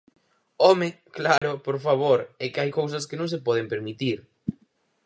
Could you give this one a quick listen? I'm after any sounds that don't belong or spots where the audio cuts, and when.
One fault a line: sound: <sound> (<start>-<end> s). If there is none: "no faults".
sound: dropout (1.4-1.4 s)